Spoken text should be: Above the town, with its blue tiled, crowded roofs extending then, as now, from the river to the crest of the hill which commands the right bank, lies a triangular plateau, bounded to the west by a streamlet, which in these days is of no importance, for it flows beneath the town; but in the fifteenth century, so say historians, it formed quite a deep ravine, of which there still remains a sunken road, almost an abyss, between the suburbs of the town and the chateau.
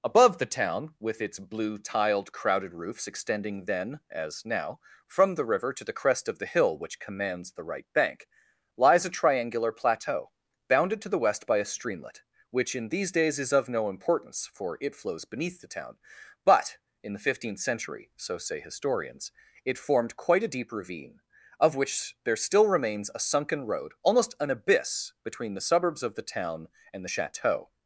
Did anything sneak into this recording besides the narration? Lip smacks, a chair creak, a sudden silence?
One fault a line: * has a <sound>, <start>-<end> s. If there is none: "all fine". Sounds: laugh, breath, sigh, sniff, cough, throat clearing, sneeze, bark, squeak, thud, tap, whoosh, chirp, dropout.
all fine